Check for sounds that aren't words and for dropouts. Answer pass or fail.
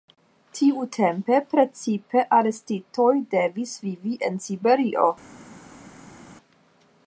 pass